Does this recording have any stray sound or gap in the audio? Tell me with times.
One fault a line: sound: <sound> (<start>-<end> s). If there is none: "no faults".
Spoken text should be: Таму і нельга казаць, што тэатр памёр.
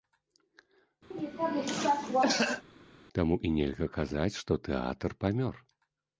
sound: cough (1.1-2.6 s)